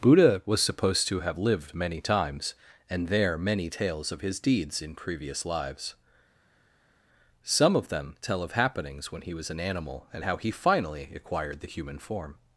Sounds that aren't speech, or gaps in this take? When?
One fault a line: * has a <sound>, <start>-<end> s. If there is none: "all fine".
all fine